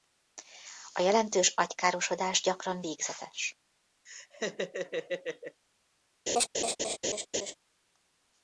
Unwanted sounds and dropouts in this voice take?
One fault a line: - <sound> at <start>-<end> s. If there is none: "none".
- laugh at 4.1-5.6 s
- laugh at 6.3-7.5 s